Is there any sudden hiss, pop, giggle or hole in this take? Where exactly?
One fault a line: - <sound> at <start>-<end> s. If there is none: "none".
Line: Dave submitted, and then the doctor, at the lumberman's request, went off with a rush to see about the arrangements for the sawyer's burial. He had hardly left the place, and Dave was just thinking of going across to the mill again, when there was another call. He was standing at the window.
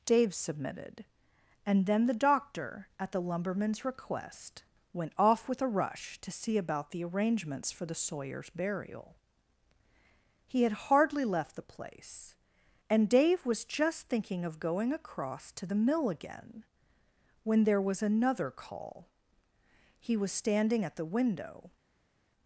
none